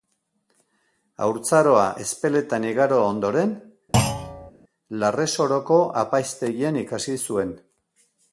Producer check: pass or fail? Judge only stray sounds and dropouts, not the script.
fail